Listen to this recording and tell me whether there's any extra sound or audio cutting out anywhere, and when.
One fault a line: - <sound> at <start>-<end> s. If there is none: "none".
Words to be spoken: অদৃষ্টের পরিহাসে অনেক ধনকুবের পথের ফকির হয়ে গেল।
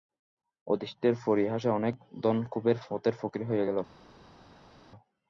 none